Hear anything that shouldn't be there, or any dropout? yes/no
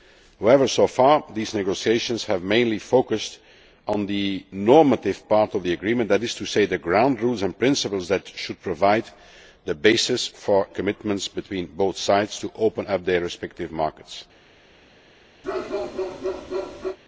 yes